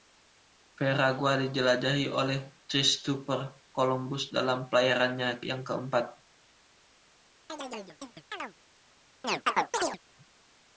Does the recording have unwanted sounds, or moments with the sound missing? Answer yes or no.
yes